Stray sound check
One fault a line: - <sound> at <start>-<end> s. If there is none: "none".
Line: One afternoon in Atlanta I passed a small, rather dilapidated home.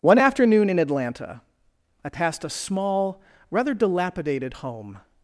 none